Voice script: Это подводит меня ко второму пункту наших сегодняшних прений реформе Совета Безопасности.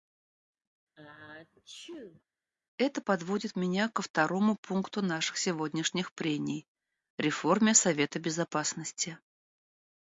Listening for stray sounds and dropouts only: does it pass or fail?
fail